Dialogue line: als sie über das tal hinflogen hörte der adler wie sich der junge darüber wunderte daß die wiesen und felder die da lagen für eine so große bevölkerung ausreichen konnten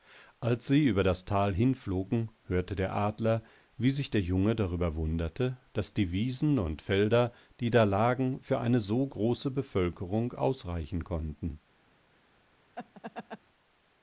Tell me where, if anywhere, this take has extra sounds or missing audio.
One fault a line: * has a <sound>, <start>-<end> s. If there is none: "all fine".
* has a laugh, 12.8-13.4 s